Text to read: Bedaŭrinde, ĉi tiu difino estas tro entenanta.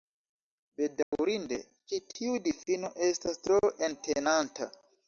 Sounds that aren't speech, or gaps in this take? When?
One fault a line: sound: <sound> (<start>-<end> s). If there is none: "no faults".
sound: dropout (1.0-1.1 s)